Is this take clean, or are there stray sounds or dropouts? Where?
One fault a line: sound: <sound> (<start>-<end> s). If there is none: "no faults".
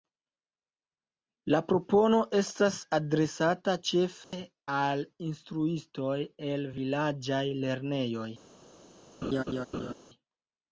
sound: dropout (4.2-4.3 s)
sound: laugh (9.2-9.9 s)